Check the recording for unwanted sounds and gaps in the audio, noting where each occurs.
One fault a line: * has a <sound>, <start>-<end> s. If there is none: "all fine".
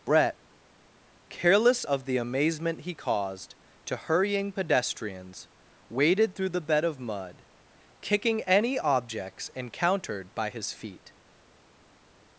all fine